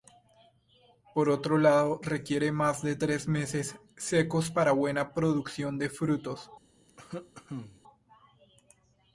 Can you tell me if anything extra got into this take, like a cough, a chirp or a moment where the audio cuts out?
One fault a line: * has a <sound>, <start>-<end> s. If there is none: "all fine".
* has a cough, 6.9-7.8 s